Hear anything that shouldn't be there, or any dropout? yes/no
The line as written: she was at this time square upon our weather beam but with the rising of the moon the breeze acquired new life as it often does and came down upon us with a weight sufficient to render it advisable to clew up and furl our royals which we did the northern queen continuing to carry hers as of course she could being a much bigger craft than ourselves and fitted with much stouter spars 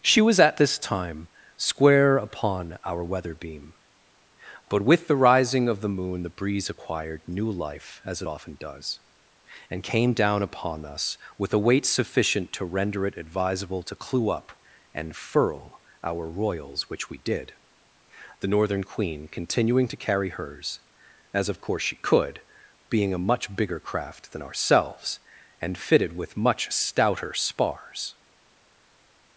no